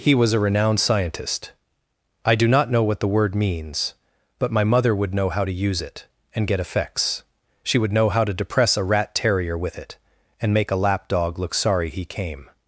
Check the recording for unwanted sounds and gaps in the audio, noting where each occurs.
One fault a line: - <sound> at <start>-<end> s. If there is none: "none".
none